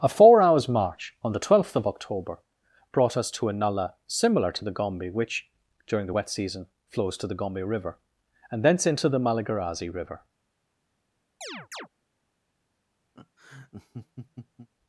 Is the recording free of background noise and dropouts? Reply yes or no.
no